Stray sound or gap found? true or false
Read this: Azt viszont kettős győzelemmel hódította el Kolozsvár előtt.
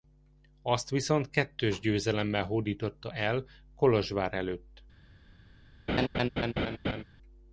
true